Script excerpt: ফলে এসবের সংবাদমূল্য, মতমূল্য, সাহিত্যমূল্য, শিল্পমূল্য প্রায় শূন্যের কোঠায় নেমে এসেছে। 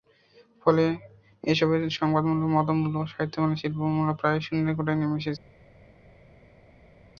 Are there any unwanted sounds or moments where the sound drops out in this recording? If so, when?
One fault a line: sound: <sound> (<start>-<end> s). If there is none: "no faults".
no faults